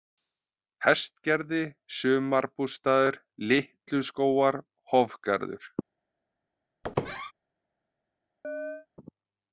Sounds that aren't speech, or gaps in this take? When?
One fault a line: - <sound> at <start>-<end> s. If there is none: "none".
- squeak at 6.8-7.3 s
- chirp at 8.4-8.9 s